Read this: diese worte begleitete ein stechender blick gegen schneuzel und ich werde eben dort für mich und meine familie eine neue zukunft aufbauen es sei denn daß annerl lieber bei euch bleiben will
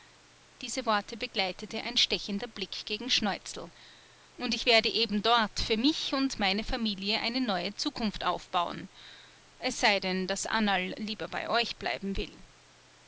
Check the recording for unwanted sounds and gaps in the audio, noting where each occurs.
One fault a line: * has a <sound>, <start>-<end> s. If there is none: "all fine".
all fine